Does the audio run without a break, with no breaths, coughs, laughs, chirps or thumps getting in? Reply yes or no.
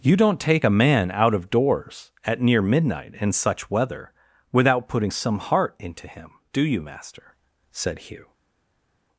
yes